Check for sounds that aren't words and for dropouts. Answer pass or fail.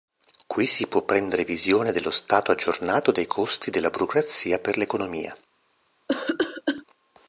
fail